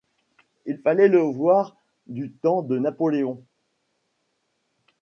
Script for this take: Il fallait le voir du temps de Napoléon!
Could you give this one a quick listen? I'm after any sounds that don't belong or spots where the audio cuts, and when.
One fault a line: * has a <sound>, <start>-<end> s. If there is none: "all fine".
all fine